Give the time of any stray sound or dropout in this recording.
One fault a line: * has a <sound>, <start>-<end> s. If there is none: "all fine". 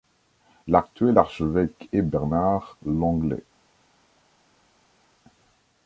all fine